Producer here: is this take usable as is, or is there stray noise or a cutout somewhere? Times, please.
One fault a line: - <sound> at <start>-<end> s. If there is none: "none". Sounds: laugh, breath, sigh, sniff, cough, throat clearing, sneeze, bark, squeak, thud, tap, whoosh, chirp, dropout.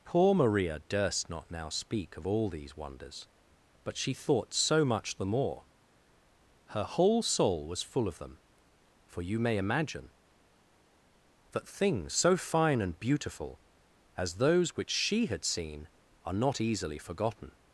none